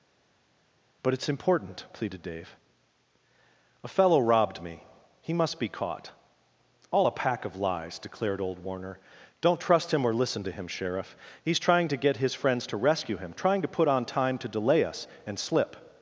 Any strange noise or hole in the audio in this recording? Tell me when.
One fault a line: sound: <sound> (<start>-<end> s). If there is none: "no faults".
no faults